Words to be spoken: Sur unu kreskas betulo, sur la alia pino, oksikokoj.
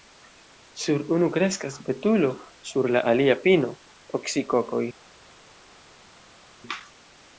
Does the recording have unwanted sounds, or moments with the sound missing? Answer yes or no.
no